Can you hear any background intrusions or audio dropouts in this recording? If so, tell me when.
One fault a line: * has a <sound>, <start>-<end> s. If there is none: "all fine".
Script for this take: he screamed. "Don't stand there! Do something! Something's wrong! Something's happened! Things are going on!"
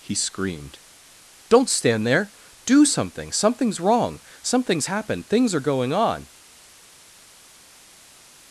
all fine